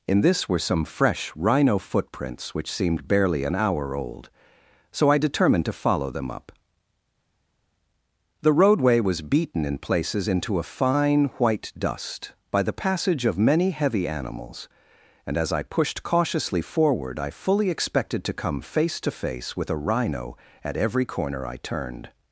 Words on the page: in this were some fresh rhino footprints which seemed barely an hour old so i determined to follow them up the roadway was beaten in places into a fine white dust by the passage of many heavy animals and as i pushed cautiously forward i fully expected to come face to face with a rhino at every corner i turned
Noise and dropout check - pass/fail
pass